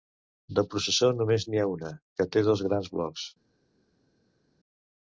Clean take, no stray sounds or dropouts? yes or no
yes